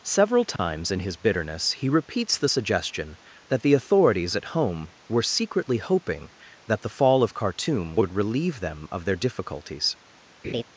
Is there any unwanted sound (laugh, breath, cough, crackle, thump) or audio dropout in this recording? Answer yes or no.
yes